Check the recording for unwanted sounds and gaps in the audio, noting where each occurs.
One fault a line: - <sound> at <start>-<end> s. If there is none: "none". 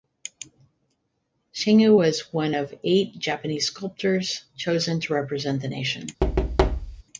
- thud at 6.2-7.0 s